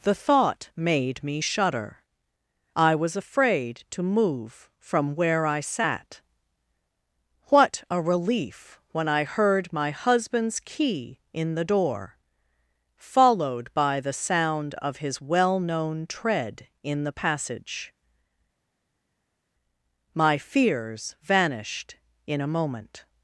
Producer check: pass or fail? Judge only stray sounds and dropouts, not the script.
pass